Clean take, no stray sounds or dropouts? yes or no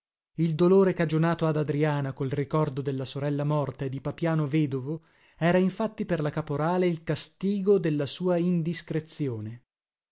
yes